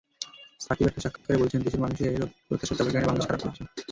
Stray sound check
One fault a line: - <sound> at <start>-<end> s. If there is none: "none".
- dropout at 1.2-1.2 s